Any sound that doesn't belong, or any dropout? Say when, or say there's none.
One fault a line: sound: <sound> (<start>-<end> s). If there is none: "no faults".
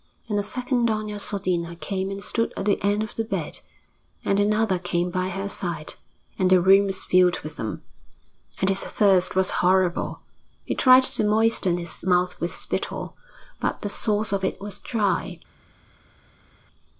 no faults